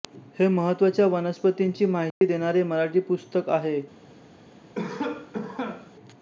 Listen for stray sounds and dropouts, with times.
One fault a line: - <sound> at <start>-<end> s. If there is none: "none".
- dropout at 2.1-2.2 s
- cough at 4.7-5.9 s